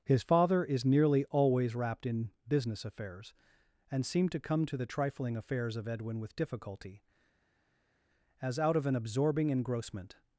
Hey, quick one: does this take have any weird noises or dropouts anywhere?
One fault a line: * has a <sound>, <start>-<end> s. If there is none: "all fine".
all fine